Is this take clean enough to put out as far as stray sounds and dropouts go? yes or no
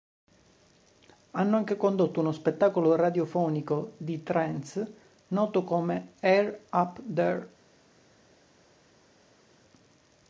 yes